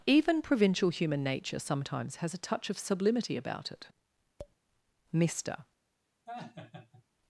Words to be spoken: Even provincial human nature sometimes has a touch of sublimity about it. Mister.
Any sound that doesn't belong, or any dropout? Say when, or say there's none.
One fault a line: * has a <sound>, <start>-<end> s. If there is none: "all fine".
* has a tap, 4.4-4.6 s
* has a laugh, 6.3-7.0 s